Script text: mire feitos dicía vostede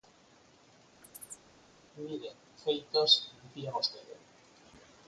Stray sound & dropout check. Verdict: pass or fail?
fail